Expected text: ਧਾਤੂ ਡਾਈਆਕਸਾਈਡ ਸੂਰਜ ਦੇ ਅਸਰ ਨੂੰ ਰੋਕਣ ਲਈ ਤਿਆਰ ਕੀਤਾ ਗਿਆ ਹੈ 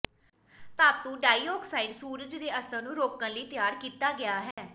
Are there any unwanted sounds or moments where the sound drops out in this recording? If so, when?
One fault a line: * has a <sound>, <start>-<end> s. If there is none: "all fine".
* has a dropout, 4.5-4.6 s